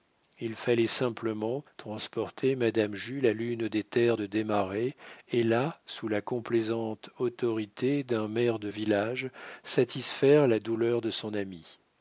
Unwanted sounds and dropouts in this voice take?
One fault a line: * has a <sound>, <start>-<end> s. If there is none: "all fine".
all fine